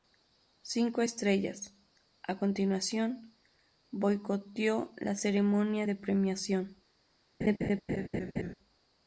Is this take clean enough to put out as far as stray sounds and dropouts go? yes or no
no